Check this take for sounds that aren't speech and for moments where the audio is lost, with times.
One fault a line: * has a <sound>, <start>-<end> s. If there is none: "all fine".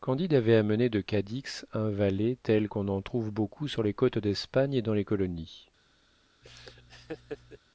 * has a laugh, 6.4-7.6 s